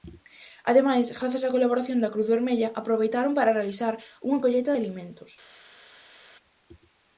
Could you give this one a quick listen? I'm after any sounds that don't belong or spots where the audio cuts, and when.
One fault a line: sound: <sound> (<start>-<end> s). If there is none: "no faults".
no faults